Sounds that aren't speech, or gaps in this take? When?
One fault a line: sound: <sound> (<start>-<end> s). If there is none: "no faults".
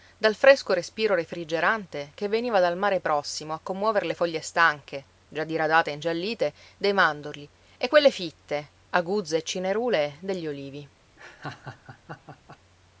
sound: laugh (11.2-12.6 s)